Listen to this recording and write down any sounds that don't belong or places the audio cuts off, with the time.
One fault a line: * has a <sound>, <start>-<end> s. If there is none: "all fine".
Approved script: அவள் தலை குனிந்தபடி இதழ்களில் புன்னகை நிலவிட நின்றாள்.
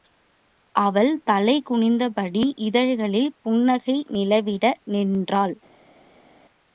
all fine